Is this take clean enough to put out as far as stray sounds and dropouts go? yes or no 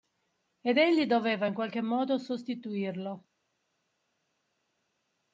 yes